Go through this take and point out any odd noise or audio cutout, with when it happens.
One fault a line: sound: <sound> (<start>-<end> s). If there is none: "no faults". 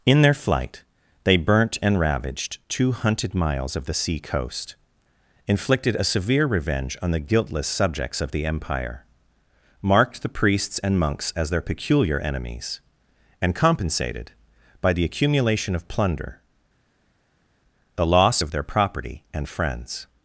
no faults